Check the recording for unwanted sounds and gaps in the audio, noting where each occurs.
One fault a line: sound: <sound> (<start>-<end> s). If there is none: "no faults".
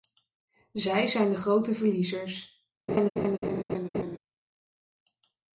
sound: laugh (2.9-4.2 s)